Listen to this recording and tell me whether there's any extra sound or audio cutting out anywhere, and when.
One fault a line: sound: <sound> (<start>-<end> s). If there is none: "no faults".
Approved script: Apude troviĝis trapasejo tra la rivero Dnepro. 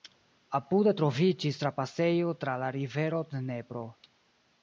no faults